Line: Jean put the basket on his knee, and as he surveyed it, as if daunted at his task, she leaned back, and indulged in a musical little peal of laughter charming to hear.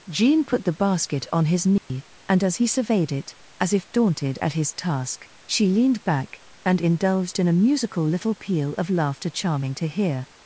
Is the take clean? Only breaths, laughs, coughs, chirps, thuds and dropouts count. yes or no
no